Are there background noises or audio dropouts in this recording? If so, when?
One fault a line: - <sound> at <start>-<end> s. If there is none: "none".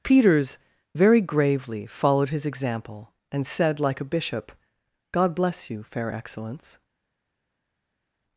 none